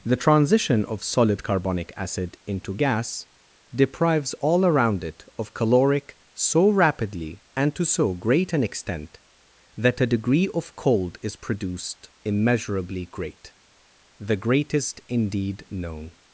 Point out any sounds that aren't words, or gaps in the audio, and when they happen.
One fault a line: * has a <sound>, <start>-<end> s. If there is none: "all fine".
all fine